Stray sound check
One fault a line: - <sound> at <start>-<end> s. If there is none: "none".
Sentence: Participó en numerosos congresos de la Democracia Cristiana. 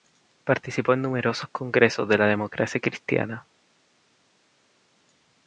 none